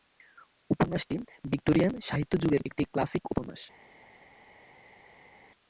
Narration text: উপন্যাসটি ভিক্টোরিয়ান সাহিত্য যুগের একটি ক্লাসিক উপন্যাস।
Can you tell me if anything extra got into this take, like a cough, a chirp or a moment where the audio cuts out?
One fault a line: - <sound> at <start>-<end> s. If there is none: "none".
none